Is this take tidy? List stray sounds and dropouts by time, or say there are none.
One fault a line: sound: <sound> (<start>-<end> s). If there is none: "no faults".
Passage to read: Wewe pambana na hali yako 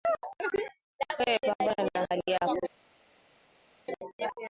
no faults